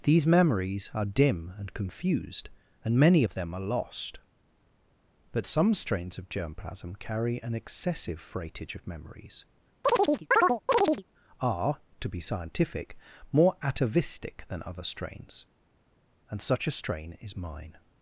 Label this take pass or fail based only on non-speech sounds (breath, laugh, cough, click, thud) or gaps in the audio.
fail